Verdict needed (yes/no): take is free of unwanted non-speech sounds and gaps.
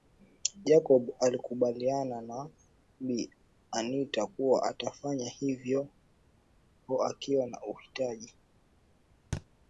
no